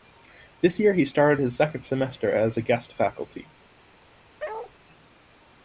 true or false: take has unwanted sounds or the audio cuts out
true